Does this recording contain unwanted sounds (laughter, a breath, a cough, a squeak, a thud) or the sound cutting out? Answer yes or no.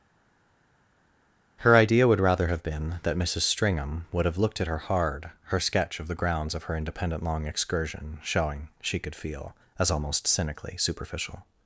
no